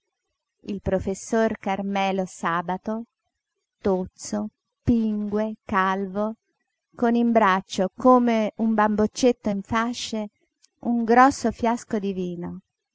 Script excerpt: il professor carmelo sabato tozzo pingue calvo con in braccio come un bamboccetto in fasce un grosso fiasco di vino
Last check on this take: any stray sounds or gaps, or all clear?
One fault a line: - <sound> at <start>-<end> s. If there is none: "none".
none